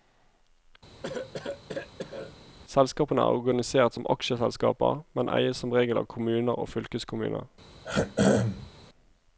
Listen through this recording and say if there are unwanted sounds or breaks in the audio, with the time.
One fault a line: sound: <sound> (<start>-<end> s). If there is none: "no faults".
sound: cough (1.0-2.4 s)
sound: throat clearing (7.8-8.7 s)